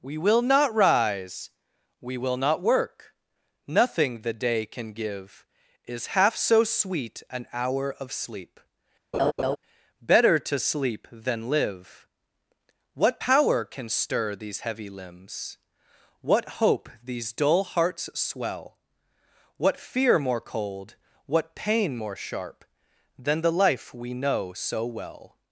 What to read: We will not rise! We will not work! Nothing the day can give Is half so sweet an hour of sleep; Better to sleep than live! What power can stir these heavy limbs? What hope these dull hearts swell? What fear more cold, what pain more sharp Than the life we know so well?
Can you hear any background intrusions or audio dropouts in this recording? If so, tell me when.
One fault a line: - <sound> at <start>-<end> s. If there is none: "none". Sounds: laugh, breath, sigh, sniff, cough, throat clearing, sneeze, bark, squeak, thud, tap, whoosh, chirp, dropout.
- laugh at 9.1-9.6 s